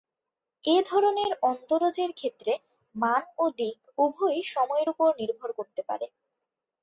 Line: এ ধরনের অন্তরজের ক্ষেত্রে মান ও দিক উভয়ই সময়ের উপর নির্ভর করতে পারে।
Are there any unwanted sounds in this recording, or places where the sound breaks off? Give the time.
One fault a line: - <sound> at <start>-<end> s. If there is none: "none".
none